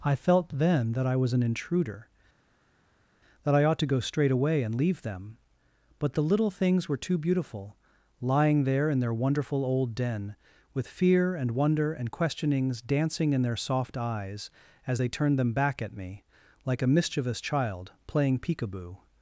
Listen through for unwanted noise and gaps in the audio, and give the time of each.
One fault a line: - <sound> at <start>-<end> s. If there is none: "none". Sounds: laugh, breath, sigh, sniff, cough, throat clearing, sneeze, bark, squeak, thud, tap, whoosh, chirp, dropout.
none